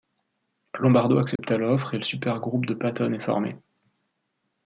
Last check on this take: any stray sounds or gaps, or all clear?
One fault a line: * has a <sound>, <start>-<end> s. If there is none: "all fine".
* has a dropout, 1.4-1.4 s